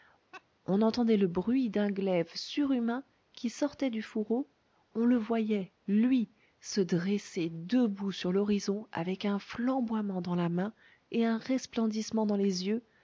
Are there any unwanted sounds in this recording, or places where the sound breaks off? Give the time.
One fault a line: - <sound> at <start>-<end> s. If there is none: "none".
- laugh at 0.3-0.4 s